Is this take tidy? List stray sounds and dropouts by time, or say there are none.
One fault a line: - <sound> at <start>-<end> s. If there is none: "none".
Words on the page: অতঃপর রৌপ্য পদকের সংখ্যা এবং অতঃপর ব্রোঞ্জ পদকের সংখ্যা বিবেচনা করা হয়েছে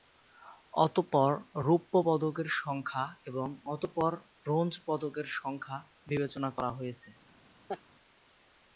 - laugh at 7.7-7.8 s